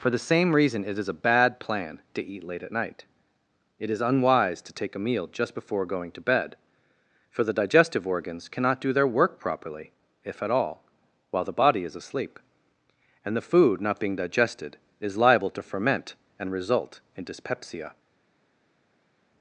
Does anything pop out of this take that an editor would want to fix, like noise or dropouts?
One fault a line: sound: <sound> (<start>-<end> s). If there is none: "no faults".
no faults